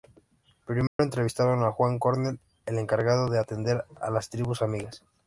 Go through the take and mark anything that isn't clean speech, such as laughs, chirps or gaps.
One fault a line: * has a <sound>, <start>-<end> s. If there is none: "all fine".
* has a dropout, 0.9-1.0 s